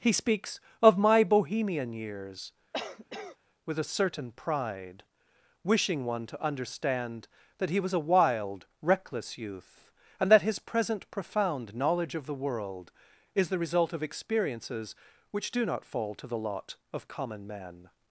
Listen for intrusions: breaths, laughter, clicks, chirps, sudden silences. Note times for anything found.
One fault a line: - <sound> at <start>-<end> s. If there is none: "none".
- cough at 2.7-3.4 s